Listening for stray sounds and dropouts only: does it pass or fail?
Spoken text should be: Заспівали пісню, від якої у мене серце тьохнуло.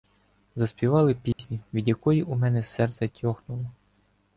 fail